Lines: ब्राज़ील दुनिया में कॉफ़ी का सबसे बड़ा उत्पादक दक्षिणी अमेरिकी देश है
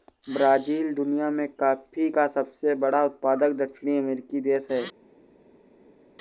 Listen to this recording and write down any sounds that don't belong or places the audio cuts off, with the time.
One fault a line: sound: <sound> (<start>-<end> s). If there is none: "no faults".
no faults